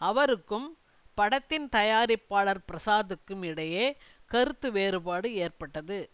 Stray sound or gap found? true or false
false